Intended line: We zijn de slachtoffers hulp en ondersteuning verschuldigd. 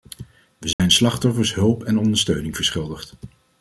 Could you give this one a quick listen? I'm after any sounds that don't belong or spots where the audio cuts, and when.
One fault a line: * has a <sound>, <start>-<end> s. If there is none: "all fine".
* has a dropout, 0.7-0.8 s